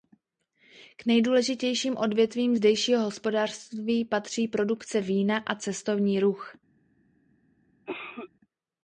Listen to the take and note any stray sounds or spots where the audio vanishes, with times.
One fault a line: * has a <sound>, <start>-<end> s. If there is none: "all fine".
* has a cough, 7.9-8.3 s